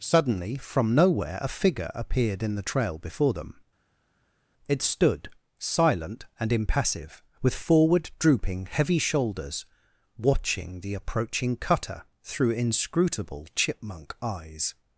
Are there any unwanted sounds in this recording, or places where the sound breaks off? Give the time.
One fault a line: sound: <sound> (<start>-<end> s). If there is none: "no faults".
no faults